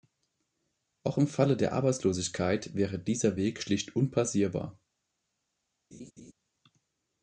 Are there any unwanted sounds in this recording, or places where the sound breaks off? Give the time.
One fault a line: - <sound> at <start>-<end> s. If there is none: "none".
- laugh at 5.9-6.3 s